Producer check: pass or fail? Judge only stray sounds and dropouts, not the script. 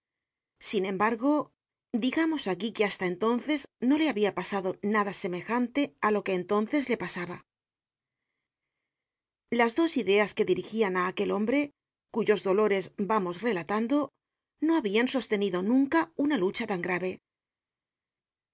pass